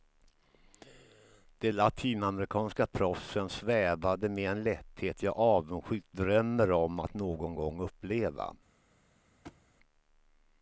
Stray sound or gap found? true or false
true